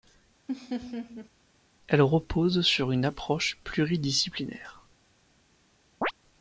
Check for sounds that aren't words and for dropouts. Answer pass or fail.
fail